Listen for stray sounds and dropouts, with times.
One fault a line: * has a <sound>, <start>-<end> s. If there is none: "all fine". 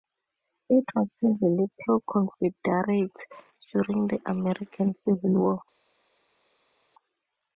all fine